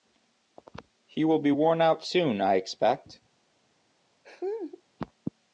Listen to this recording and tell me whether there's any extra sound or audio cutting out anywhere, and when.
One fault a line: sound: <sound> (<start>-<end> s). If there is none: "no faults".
sound: laugh (4.2-4.8 s)